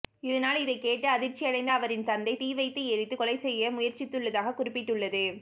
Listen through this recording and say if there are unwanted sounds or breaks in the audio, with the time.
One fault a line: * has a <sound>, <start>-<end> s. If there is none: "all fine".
all fine